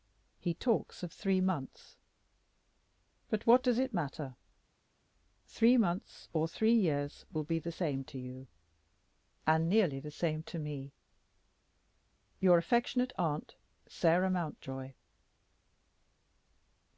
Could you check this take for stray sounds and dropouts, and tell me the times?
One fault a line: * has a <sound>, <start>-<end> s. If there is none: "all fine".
all fine